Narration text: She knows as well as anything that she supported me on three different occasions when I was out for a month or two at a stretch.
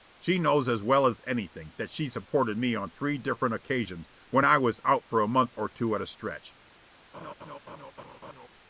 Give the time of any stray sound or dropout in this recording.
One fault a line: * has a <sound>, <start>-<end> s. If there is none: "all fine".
* has a laugh, 7.1-8.5 s